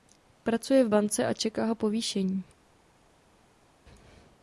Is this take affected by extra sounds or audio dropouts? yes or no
no